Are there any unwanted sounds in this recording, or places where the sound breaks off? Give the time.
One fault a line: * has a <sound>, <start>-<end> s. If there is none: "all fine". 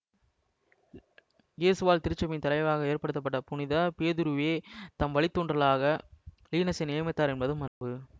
* has a dropout, 7.7-7.8 s